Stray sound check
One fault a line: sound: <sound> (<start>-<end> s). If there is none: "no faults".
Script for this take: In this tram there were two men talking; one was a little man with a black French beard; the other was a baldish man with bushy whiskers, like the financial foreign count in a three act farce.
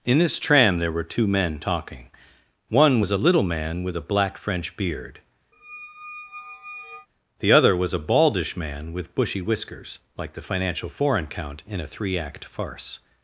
sound: squeak (5.5-7.1 s)